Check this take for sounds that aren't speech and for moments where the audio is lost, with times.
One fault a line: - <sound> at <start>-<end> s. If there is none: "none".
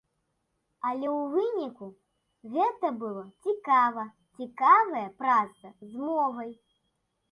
none